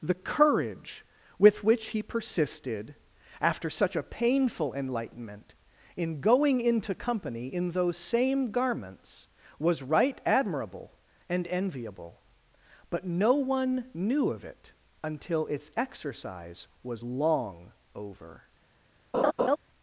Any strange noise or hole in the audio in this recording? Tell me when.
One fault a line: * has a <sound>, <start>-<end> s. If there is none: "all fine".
* has a laugh, 19.1-19.6 s